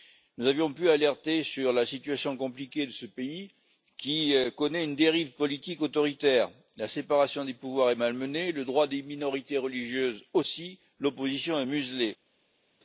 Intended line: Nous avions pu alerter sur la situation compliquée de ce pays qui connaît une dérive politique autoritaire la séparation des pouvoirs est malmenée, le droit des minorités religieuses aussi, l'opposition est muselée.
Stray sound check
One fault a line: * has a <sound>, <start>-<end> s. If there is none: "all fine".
all fine